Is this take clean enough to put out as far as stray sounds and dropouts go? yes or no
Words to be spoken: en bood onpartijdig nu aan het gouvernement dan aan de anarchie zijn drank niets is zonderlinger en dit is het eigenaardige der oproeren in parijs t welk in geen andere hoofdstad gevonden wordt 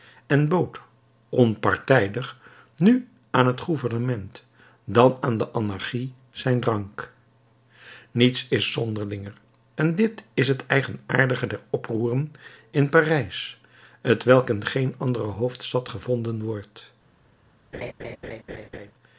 no